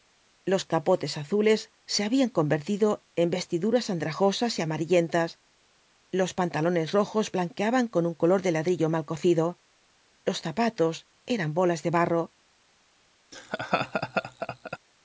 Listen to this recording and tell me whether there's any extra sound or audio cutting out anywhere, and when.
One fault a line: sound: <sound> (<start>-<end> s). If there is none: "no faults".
sound: laugh (13.3-14.8 s)